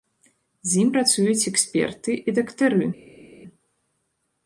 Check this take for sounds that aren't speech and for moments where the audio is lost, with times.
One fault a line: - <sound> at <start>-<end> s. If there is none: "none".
none